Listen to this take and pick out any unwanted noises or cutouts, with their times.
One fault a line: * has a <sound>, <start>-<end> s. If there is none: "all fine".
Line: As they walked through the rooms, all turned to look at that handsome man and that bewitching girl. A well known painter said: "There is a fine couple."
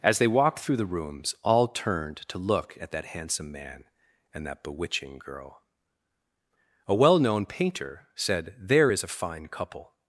all fine